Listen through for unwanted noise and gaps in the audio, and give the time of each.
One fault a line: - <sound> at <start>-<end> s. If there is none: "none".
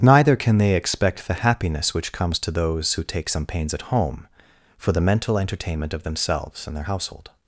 none